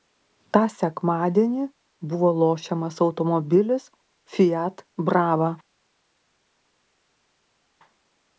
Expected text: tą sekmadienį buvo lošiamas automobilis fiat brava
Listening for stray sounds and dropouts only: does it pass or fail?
pass